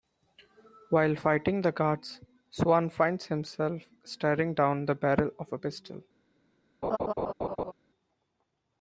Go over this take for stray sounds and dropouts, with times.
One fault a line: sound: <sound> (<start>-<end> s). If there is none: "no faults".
sound: laugh (6.8-7.7 s)